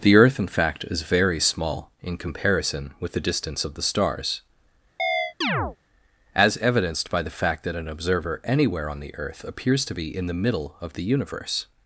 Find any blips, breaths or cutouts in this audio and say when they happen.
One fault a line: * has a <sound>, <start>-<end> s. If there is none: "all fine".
* has a chirp, 5.0-5.8 s